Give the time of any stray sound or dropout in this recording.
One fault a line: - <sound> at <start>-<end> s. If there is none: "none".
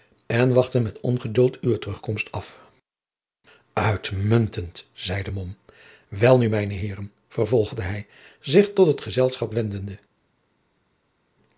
none